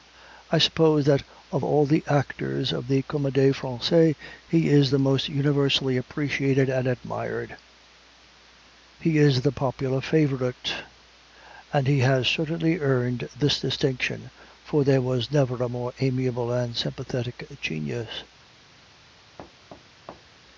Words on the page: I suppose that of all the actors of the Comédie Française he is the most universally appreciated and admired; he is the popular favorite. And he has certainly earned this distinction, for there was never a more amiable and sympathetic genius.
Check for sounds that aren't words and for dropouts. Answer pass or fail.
fail